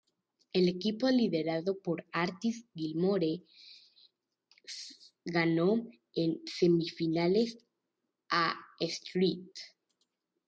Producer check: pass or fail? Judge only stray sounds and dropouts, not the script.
pass